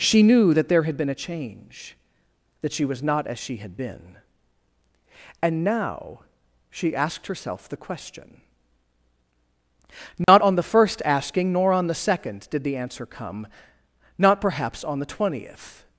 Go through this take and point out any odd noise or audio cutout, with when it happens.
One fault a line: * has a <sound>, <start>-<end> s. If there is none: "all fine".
* has a dropout, 10.2-10.3 s